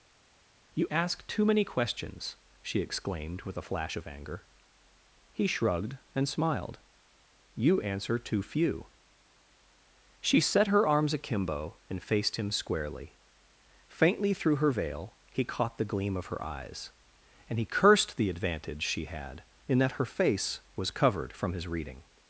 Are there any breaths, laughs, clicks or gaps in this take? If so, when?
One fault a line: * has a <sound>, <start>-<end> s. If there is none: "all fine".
all fine